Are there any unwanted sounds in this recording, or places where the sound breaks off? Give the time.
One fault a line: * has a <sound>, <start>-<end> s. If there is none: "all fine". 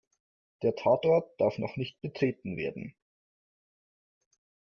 all fine